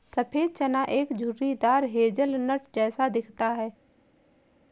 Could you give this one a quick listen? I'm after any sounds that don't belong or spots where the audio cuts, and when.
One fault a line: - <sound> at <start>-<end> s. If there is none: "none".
none